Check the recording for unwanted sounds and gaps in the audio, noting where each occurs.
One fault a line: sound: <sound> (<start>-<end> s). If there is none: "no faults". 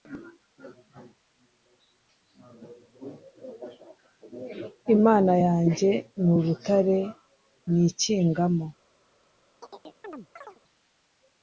sound: chirp (9.6-10.6 s)